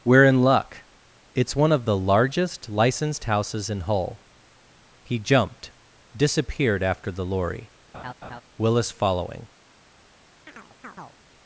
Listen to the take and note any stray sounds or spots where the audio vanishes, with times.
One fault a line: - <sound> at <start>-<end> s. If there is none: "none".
- laugh at 7.9-8.4 s
- chirp at 10.5-11.2 s